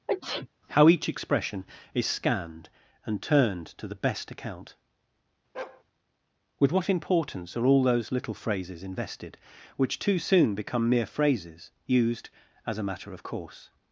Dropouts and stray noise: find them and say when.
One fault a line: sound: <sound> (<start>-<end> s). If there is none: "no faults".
sound: sneeze (0.1-0.5 s)
sound: bark (5.5-5.8 s)